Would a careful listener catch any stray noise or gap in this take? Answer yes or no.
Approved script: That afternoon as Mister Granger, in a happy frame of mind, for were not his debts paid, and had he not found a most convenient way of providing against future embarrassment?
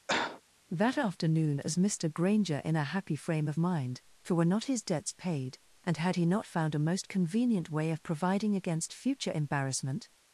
yes